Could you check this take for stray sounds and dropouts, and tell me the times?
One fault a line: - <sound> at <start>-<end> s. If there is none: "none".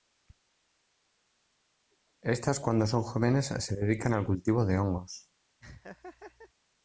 - laugh at 5.6-6.5 s